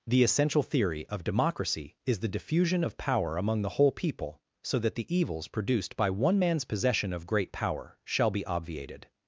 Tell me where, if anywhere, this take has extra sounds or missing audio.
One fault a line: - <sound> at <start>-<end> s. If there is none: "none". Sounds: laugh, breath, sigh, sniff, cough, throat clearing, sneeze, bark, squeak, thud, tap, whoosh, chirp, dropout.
none